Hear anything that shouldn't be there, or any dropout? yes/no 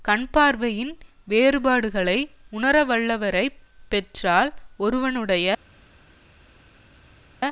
no